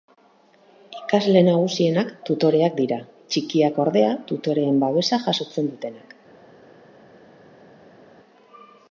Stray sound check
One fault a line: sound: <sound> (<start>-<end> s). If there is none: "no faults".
no faults